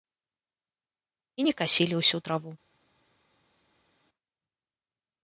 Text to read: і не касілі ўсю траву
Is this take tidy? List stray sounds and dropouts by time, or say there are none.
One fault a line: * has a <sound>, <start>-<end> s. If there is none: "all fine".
all fine